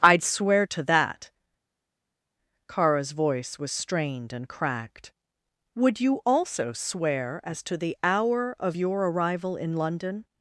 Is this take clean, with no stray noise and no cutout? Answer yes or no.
yes